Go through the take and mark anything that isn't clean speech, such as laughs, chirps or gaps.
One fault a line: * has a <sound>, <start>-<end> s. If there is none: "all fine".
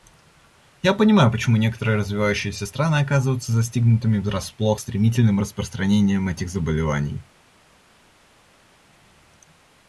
all fine